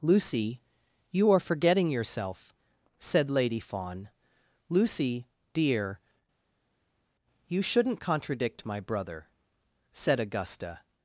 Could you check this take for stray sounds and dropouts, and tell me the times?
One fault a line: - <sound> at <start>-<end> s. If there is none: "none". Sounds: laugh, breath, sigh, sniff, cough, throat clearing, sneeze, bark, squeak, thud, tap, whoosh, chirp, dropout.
none